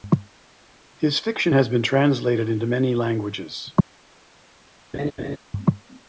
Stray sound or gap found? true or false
true